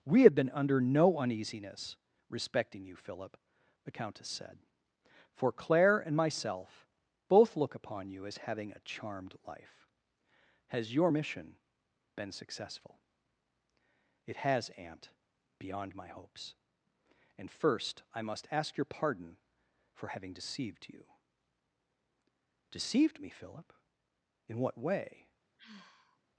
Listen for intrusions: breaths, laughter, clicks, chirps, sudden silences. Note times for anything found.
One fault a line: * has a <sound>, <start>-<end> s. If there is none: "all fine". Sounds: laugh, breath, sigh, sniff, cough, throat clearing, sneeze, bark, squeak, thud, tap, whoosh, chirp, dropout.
* has a sigh, 25.6-26.2 s